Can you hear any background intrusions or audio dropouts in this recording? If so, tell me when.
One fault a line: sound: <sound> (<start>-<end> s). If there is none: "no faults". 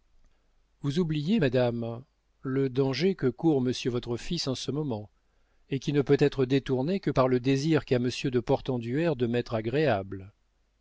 no faults